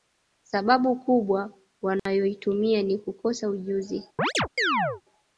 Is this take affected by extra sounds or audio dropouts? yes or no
yes